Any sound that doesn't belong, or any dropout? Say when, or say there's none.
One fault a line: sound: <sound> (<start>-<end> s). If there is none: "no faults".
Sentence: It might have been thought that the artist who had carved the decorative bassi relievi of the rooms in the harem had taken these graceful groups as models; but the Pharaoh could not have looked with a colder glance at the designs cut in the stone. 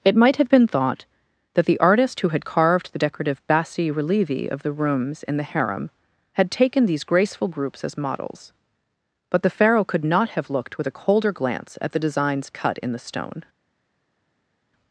no faults